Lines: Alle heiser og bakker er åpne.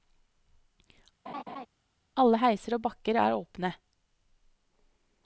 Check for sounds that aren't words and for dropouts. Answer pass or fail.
fail